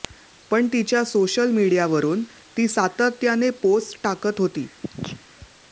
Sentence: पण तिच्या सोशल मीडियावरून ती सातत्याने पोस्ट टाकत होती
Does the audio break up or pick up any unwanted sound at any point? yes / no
yes